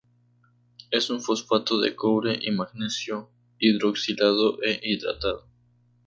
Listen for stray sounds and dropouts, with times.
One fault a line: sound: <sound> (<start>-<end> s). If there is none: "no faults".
no faults